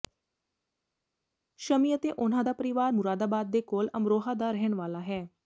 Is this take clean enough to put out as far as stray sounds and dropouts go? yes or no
yes